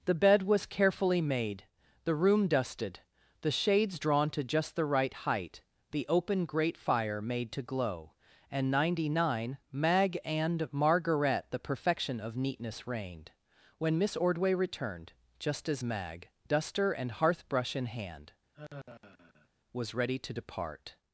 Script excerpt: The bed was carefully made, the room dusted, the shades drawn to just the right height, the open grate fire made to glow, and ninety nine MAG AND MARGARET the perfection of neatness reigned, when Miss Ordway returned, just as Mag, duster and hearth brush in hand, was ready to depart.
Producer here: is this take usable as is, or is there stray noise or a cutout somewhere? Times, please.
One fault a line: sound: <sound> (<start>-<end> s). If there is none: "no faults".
sound: sigh (18.5-19.5 s)